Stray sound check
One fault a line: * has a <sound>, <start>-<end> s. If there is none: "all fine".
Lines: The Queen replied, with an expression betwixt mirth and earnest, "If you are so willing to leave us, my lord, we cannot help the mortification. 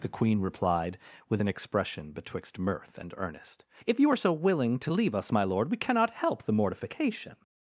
all fine